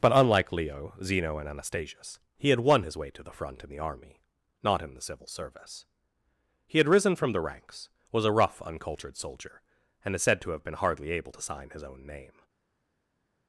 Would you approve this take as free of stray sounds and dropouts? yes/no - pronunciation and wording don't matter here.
yes